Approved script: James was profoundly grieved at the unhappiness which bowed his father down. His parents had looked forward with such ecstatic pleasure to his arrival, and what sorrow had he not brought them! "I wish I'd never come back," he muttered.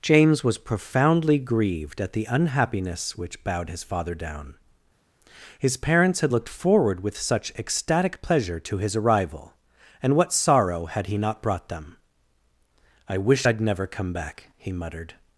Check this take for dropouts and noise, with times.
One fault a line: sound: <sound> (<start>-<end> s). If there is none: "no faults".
no faults